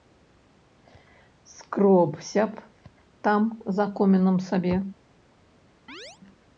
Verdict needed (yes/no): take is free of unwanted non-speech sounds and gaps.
no